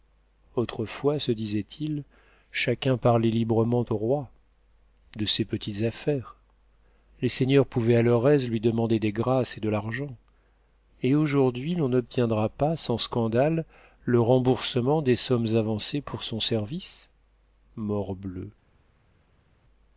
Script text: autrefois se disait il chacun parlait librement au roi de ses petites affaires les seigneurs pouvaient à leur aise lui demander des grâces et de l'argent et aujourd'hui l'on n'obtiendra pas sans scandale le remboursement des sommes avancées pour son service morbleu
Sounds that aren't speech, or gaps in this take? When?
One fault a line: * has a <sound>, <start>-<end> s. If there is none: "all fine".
all fine